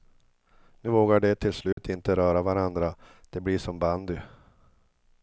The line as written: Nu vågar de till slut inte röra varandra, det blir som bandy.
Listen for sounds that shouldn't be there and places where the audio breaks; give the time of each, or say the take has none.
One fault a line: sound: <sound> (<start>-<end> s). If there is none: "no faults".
sound: dropout (1.7-1.8 s)